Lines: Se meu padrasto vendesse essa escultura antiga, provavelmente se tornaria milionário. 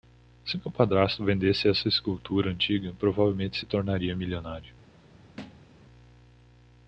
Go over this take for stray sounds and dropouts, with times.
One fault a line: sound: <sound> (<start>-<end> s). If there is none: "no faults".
sound: thud (5.4-5.8 s)